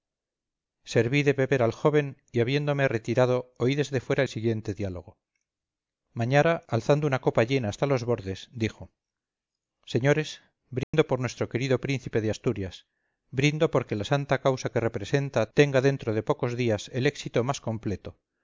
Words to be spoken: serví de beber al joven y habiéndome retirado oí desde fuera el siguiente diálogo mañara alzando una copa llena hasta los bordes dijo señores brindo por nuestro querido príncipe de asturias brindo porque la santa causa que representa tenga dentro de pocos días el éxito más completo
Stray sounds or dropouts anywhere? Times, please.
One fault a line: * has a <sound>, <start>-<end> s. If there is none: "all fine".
* has a dropout, 10.8-10.9 s